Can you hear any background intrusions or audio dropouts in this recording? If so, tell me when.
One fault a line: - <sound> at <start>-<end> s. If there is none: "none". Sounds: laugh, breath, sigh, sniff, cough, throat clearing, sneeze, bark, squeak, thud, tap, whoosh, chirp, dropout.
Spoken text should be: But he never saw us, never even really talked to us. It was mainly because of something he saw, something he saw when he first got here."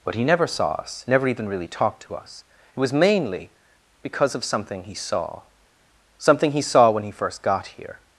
none